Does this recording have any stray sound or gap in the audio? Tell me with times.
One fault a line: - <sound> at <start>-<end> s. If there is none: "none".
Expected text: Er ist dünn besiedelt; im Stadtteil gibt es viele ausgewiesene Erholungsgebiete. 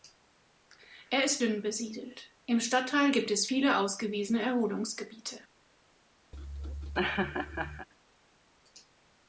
- laugh at 6.3-7.9 s